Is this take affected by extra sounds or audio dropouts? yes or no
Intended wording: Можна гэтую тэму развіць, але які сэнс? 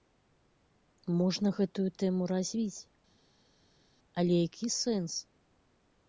no